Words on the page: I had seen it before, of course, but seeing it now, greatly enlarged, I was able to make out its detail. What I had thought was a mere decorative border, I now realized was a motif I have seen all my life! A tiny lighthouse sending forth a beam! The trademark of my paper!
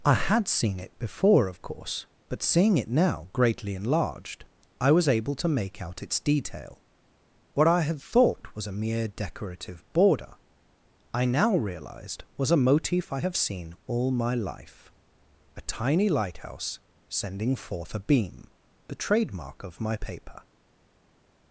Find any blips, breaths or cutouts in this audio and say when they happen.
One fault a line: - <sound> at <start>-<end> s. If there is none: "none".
none